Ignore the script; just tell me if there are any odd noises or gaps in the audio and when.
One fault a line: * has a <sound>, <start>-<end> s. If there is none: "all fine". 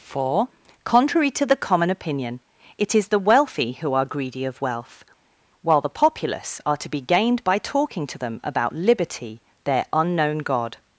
all fine